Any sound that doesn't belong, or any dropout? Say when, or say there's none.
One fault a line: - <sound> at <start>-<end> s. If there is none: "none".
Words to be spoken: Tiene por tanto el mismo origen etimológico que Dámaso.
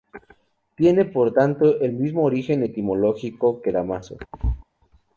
- thud at 4.3-4.6 s